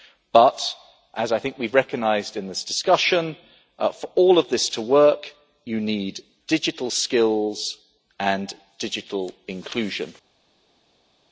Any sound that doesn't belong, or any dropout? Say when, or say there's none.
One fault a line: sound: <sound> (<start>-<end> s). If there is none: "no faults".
no faults